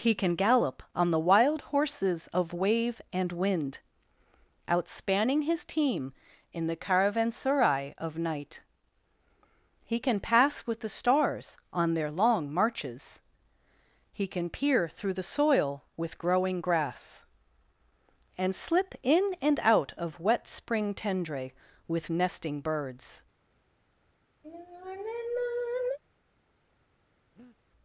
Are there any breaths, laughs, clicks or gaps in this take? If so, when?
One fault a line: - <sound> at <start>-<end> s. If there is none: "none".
- sigh at 24.4-26.0 s
- breath at 27.4-27.6 s